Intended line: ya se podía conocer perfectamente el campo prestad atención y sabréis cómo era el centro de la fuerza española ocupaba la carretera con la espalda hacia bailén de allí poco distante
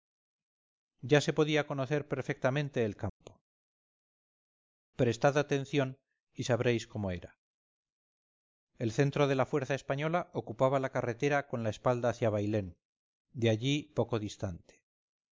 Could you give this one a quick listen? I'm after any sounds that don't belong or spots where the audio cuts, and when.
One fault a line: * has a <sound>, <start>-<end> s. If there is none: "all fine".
* has a dropout, 3.1-3.2 s